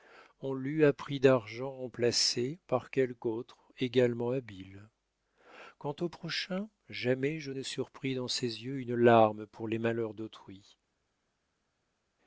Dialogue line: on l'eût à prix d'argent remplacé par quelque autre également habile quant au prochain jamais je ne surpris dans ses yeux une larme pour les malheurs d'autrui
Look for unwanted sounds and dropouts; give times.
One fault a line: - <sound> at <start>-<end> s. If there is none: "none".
none